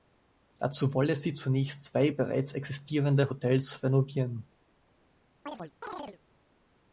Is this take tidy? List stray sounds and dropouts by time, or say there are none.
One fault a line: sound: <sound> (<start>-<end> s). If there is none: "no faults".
sound: chirp (5.5-6.2 s)